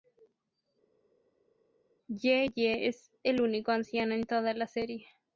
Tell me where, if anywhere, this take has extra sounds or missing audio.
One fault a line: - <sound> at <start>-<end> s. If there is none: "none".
none